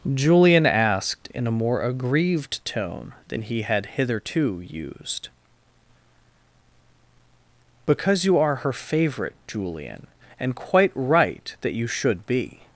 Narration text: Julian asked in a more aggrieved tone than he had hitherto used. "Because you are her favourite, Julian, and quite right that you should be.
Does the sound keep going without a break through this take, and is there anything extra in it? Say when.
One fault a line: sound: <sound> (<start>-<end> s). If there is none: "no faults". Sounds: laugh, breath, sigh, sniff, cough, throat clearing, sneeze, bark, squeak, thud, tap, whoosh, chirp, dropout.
no faults